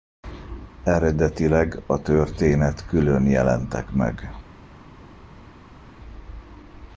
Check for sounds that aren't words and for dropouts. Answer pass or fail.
pass